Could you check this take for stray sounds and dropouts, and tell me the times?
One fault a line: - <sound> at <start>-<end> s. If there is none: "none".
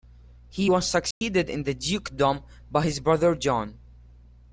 - dropout at 1.1-1.2 s